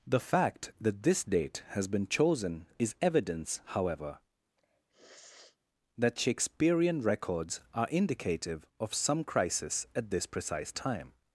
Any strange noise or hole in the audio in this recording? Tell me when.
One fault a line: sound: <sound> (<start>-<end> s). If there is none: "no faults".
sound: sniff (4.6-5.6 s)